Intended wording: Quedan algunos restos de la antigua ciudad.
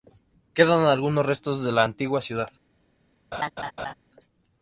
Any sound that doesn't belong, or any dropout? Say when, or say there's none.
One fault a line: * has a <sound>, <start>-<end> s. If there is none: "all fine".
* has a laugh, 3.3-3.9 s